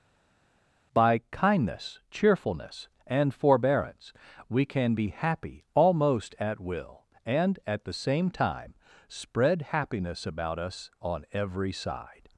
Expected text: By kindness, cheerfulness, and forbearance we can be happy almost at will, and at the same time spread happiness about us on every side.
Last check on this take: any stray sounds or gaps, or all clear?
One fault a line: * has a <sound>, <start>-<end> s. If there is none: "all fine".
all fine